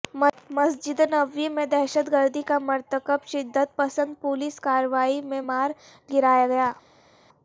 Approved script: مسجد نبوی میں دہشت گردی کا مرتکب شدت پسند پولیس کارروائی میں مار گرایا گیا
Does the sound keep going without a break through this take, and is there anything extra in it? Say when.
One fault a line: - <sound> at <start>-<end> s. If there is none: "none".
none